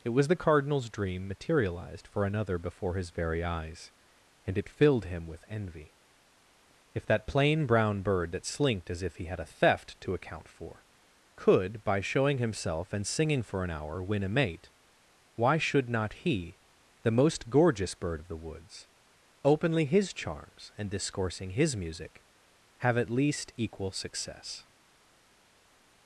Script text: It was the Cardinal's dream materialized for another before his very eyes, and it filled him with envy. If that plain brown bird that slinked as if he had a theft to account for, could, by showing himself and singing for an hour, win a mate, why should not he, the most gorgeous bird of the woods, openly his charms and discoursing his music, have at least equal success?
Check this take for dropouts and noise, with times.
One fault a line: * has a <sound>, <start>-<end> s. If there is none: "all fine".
all fine